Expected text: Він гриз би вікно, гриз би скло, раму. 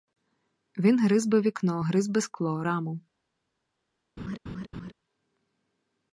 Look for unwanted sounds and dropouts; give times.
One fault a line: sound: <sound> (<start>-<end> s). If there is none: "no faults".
sound: laugh (4.2-4.9 s)